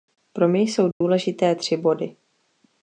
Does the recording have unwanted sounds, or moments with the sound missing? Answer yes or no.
yes